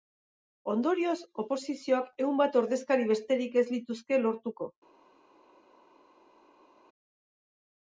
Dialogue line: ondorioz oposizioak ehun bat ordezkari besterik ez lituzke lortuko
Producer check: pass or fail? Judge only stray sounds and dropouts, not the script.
pass